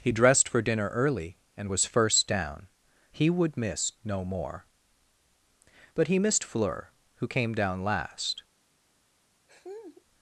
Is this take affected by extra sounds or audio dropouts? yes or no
yes